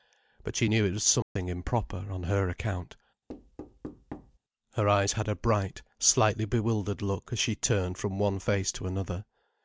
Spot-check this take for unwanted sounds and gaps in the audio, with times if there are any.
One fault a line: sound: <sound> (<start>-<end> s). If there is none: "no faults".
sound: dropout (1.2-1.4 s)
sound: thud (3.3-4.4 s)